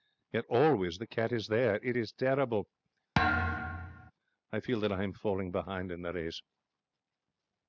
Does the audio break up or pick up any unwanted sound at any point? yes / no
yes